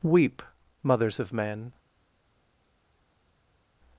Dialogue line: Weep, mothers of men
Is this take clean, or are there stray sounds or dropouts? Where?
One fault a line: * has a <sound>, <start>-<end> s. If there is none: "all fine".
all fine